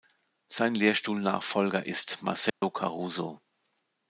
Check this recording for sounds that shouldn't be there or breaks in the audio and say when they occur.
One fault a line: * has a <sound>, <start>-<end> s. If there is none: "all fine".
* has a dropout, 2.5-2.6 s